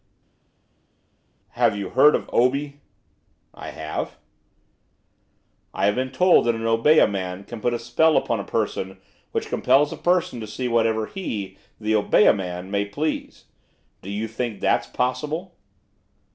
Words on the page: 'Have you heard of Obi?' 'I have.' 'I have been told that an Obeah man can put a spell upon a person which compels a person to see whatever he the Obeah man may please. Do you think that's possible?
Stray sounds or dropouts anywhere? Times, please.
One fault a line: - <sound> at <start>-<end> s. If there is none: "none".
none